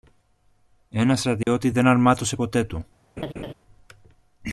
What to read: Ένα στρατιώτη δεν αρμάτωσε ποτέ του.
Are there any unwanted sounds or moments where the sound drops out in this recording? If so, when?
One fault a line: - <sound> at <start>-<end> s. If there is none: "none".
- dropout at 1.4-1.5 s
- laugh at 3.2-3.5 s